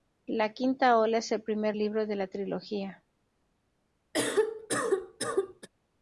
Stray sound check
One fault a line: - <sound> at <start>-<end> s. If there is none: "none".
- cough at 4.1-5.7 s